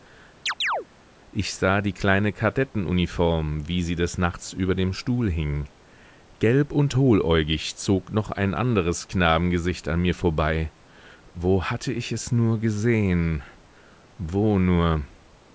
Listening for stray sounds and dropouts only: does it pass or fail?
fail